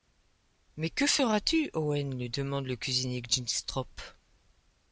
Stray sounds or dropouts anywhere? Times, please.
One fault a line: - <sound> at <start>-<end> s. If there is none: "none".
none